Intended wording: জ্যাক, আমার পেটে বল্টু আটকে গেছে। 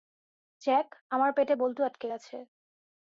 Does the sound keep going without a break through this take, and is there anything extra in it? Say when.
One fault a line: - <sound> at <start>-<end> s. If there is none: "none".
none